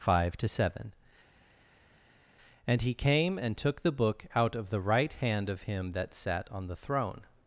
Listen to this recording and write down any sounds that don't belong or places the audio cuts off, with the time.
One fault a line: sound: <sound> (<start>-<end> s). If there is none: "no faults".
no faults